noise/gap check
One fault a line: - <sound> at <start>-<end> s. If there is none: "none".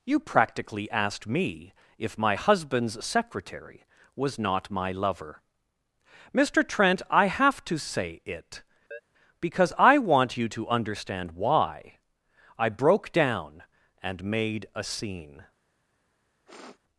- chirp at 8.9-9.0 s
- sniff at 16.5-16.8 s